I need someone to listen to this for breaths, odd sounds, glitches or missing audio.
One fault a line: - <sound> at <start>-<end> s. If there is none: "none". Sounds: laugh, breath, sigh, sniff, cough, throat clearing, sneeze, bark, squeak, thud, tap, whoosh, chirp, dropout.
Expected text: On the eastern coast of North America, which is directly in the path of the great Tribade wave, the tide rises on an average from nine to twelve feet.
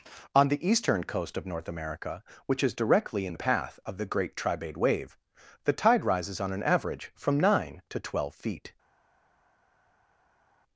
none